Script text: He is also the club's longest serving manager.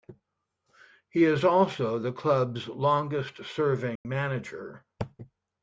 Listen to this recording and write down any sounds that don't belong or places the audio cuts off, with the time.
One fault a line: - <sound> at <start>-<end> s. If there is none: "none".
- dropout at 4.0-4.1 s